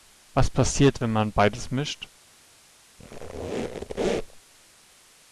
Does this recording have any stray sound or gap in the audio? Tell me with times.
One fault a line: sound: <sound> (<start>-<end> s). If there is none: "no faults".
sound: squeak (3.0-4.4 s)